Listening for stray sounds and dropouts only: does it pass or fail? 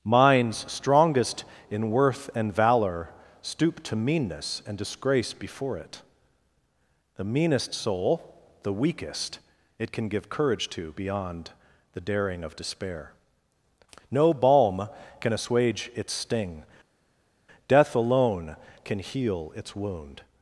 pass